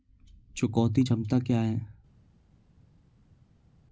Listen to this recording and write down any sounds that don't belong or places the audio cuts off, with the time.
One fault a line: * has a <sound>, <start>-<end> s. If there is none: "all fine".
all fine